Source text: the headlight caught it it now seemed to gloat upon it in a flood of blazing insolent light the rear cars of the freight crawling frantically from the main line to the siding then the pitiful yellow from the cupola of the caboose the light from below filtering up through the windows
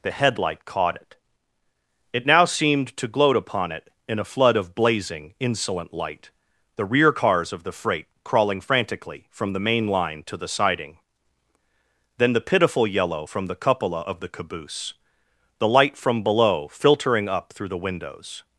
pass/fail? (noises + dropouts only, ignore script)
pass